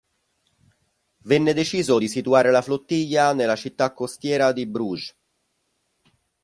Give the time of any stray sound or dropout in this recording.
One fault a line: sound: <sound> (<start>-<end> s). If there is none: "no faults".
no faults